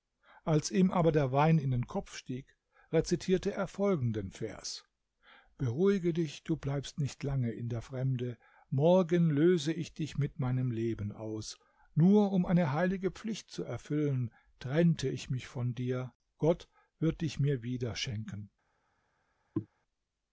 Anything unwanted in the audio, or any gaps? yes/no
yes